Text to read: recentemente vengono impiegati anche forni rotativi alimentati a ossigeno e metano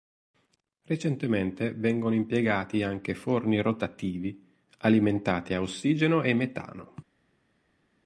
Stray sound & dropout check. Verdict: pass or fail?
pass